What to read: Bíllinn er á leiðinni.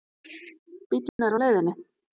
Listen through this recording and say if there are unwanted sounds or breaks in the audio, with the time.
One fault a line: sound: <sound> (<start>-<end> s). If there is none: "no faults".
sound: dropout (1.1-1.2 s)